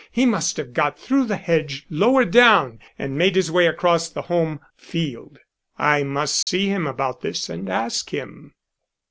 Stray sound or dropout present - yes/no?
yes